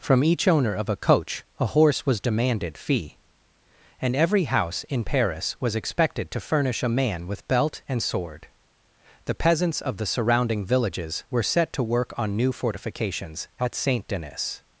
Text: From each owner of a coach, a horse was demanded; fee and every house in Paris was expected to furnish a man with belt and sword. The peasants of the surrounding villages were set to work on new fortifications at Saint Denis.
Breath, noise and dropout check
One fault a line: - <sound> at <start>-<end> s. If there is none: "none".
none